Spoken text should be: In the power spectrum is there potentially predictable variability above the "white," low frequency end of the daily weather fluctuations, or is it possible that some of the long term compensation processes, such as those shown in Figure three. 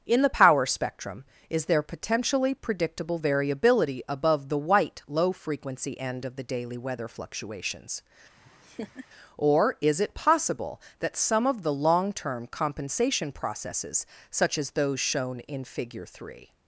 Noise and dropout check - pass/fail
fail